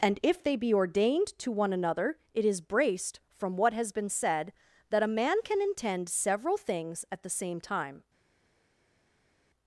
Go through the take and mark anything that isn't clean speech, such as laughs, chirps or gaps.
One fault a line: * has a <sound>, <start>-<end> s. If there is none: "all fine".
all fine